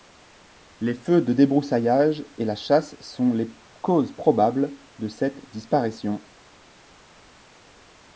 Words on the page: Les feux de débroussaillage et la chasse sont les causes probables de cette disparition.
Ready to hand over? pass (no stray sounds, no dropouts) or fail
pass